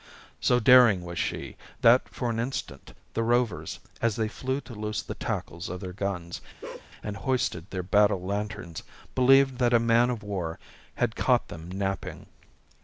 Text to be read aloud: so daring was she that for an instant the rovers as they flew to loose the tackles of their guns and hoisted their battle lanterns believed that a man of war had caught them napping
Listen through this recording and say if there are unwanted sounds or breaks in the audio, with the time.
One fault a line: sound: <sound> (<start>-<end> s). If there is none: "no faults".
sound: bark (6.6-6.9 s)